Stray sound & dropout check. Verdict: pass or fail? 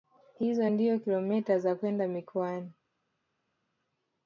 pass